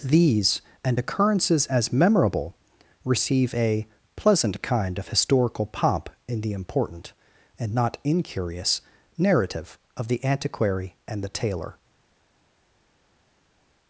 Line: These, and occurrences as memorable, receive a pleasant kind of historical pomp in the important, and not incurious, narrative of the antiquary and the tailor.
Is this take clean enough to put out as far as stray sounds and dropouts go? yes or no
yes